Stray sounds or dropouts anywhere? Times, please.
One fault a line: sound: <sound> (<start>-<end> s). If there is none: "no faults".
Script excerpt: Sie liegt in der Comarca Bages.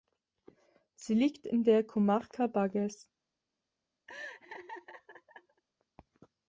sound: laugh (4.1-5.6 s)